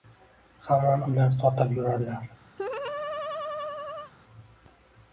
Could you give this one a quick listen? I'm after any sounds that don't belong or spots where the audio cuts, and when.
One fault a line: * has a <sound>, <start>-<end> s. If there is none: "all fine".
* has a laugh, 2.6-4.1 s